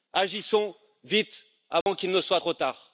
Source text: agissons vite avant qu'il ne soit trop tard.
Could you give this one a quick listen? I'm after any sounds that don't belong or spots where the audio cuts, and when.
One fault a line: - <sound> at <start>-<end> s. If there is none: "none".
- dropout at 1.8-1.9 s